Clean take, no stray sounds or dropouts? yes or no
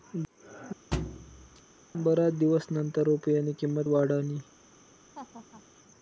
no